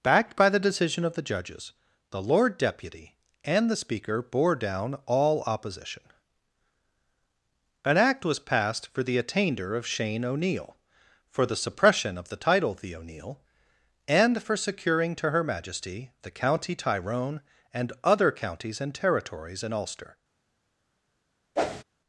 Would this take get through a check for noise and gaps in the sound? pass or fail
fail